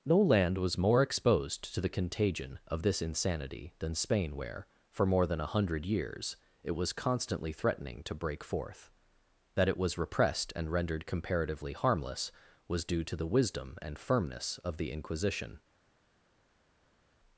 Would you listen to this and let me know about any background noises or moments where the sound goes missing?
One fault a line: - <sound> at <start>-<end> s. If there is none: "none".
none